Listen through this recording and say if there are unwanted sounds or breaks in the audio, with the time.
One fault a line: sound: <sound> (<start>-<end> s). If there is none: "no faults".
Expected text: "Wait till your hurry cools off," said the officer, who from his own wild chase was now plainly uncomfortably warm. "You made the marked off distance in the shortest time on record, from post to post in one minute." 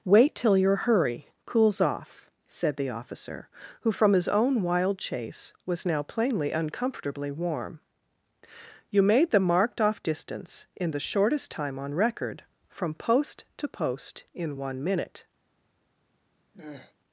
sound: throat clearing (16.5-16.9 s)